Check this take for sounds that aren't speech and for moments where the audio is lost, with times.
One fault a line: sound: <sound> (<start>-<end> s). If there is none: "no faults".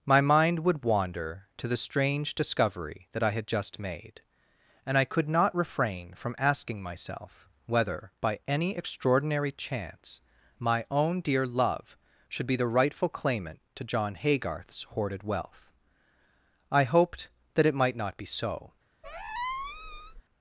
sound: squeak (19.0-20.2 s)